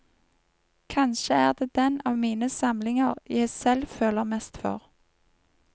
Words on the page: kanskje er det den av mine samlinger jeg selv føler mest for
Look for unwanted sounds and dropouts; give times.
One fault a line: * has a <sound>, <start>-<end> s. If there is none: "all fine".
all fine